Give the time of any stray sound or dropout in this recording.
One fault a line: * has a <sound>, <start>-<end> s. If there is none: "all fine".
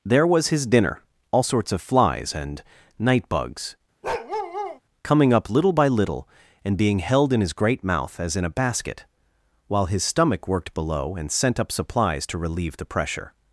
* has a bark, 4.0-4.8 s